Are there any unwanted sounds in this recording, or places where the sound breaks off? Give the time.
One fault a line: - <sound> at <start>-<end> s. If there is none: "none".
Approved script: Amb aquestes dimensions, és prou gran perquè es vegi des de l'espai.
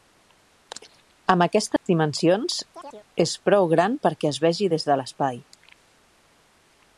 - dropout at 1.8-1.9 s
- chirp at 2.7-3.1 s